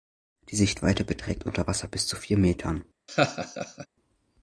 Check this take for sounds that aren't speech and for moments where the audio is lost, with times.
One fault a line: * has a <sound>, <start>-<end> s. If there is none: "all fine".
* has a laugh, 3.1-3.9 s